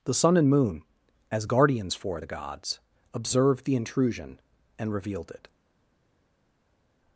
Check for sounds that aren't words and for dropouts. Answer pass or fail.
pass